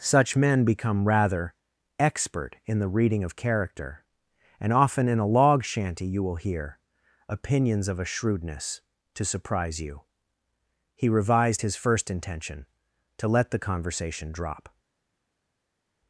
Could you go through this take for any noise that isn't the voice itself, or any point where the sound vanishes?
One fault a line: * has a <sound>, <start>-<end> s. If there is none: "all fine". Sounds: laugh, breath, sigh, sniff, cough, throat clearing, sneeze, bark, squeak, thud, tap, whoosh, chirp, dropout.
all fine